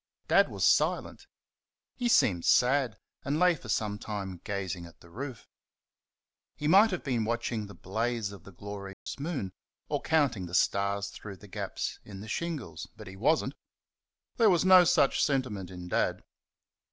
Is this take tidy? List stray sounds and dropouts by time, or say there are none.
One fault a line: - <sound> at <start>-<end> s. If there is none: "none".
- dropout at 8.9-9.1 s